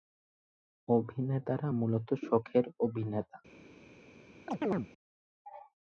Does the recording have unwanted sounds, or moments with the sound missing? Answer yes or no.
yes